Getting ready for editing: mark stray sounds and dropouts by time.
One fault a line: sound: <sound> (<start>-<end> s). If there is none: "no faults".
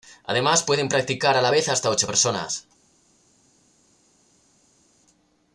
no faults